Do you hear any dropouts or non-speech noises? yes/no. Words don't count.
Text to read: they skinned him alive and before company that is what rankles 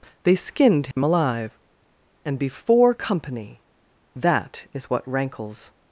yes